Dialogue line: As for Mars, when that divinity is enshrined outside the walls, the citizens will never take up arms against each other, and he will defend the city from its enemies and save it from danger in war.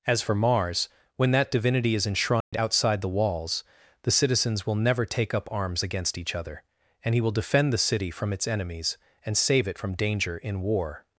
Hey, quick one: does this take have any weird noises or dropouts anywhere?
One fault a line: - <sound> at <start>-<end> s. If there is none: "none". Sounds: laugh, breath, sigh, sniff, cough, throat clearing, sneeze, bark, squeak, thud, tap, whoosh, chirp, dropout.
- dropout at 2.4-2.5 s